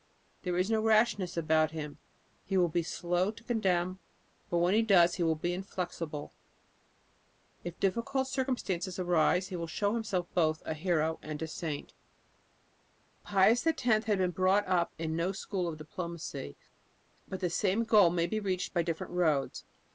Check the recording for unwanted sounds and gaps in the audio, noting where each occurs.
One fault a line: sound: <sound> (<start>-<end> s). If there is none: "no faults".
no faults